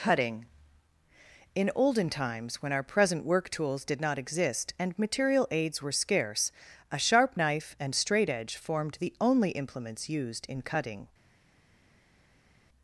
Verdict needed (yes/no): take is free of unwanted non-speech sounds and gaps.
yes